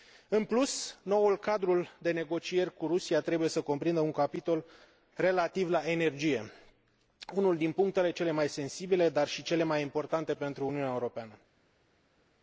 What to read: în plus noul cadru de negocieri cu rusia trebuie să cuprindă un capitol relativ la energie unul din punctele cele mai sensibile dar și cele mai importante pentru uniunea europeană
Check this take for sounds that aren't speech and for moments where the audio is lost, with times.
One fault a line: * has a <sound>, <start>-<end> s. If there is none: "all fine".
all fine